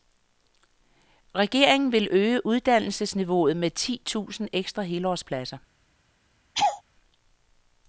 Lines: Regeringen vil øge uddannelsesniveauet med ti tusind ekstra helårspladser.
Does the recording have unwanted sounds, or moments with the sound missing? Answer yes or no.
yes